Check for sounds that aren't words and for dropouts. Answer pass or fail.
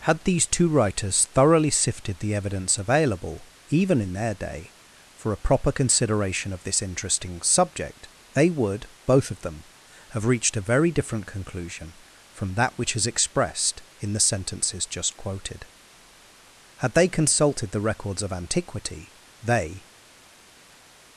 pass